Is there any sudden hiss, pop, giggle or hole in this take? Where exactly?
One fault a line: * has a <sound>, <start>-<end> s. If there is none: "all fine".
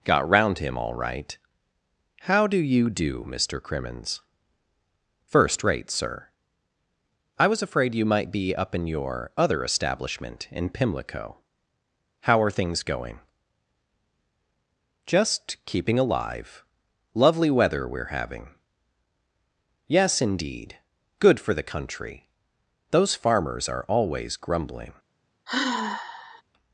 * has a sigh, 25.5-26.4 s